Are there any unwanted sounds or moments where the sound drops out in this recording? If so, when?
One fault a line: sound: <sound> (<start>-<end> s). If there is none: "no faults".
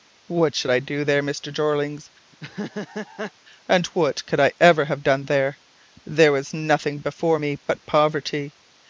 sound: laugh (2.3-3.3 s)